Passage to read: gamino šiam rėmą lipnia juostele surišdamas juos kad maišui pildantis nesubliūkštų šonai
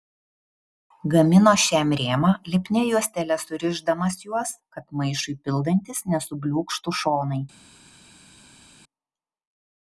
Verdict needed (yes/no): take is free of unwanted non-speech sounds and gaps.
yes